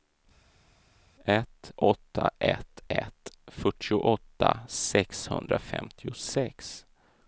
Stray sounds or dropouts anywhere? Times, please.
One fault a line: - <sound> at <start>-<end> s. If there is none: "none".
none